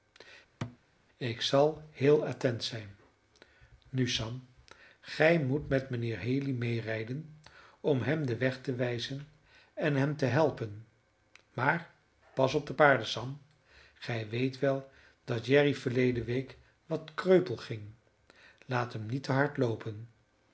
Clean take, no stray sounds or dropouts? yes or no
no